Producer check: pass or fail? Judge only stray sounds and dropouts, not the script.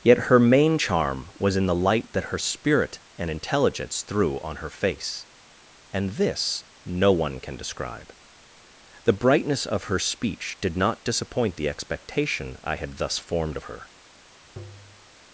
fail